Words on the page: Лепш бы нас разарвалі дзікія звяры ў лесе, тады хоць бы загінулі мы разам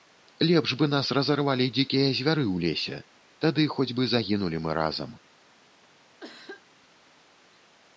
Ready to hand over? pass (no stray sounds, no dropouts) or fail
fail